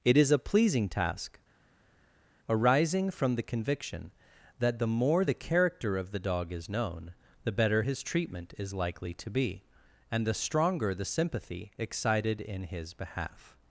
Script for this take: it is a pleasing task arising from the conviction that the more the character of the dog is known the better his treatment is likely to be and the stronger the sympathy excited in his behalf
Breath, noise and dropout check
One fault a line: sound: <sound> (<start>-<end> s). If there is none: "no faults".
no faults